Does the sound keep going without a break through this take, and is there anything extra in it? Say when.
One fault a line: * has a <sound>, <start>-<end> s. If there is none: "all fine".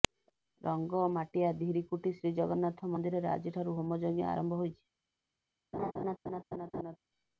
* has a laugh, 5.7-7.0 s